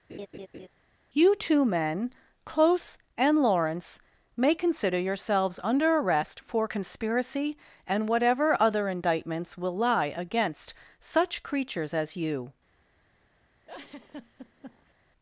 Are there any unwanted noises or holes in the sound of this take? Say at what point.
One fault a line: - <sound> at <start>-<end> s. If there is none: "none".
- laugh at 0.1-0.7 s
- laugh at 13.7-14.9 s